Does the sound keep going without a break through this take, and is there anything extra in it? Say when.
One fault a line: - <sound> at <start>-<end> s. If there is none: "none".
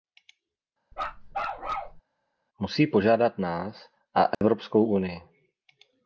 - bark at 0.9-2.0 s
- dropout at 4.3-4.4 s